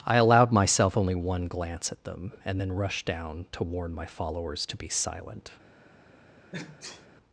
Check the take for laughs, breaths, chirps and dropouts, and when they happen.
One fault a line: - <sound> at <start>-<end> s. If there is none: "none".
- sneeze at 6.5-7.1 s